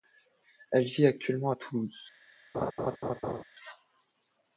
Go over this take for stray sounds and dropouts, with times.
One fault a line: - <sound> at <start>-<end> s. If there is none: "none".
- laugh at 2.5-3.4 s